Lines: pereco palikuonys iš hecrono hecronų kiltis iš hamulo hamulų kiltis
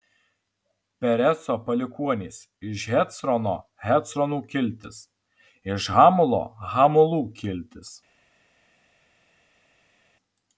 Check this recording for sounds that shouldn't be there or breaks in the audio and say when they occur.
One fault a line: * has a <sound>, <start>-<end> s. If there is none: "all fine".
all fine